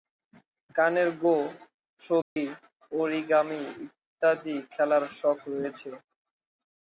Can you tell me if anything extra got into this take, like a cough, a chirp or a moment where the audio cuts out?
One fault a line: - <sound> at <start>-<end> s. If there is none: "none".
- dropout at 2.2-2.4 s